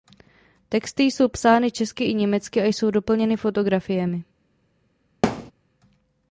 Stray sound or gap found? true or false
true